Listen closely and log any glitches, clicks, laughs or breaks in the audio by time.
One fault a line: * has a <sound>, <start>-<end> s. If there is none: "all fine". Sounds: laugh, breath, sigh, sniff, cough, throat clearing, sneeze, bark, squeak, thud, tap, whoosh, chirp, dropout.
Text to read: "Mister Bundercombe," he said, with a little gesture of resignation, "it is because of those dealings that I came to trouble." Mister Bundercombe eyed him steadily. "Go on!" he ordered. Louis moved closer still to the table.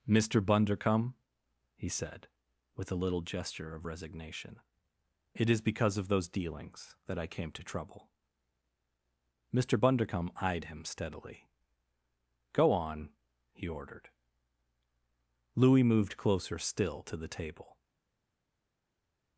all fine